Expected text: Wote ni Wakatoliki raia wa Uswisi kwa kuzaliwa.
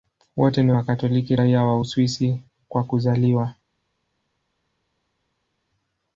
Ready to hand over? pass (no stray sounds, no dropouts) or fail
pass